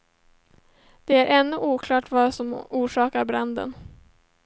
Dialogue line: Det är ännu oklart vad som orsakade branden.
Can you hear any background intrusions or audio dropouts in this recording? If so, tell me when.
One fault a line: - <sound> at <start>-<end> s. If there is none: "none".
none